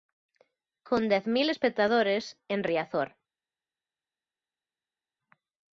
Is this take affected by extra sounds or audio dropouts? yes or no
no